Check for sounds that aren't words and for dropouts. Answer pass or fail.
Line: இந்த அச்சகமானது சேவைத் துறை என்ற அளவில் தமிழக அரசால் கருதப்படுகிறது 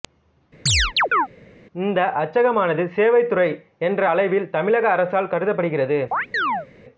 fail